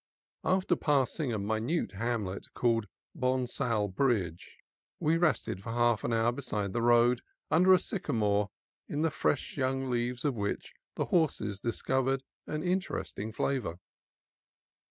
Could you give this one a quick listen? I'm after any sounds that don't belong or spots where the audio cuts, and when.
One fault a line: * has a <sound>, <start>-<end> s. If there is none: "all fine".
all fine